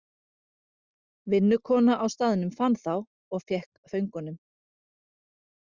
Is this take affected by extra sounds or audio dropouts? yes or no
no